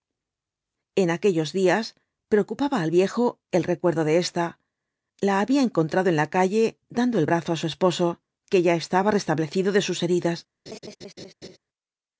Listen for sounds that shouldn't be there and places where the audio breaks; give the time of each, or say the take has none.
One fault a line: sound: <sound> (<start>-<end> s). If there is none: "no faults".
sound: laugh (10.7-11.6 s)